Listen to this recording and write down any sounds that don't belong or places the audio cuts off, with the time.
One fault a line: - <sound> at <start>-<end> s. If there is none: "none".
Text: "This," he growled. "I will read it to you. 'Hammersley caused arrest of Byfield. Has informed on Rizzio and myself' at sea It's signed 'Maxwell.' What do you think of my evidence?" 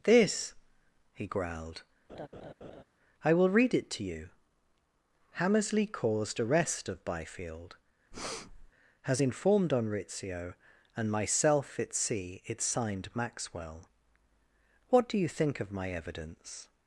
- laugh at 2.1-2.8 s
- breath at 8.1-8.7 s